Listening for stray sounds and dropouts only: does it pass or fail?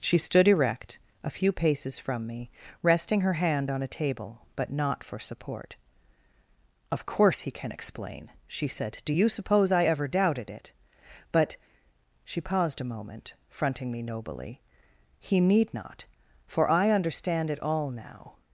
pass